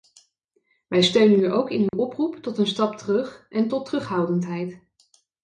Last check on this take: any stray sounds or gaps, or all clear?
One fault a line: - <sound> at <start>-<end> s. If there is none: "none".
- dropout at 1.9-1.9 s